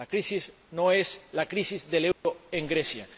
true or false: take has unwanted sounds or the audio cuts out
true